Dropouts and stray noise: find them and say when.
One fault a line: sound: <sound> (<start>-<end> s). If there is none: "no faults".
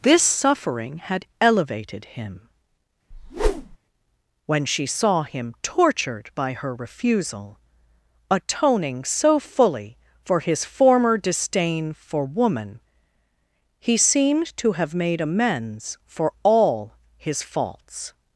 sound: whoosh (3.1-3.8 s)